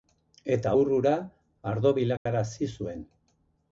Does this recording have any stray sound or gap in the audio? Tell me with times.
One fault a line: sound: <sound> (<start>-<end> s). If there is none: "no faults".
sound: dropout (2.2-2.3 s)